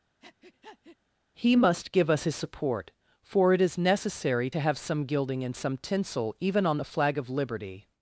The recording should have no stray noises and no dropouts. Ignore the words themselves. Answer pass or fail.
fail